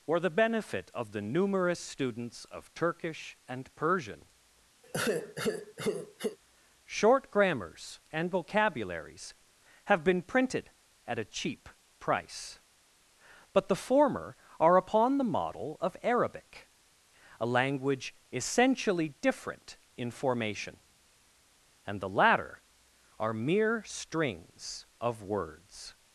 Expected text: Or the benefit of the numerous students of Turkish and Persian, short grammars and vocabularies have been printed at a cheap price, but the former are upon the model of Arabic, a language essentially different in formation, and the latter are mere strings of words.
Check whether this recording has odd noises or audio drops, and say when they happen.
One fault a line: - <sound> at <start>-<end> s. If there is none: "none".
- sigh at 4.8-6.4 s